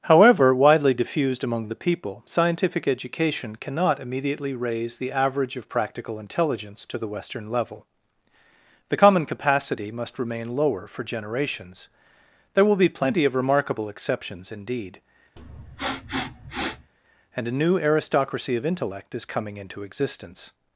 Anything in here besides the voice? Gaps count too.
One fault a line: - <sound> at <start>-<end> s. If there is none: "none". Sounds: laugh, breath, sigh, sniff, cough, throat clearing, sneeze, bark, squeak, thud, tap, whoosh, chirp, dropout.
- sniff at 15.4-16.9 s